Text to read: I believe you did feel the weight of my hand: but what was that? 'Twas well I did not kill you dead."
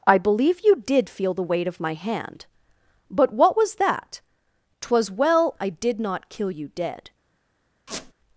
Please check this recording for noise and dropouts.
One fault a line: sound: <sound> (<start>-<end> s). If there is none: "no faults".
sound: squeak (7.9-8.1 s)